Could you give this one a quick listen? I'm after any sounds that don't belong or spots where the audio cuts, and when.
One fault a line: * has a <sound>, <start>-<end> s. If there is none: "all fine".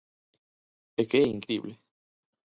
all fine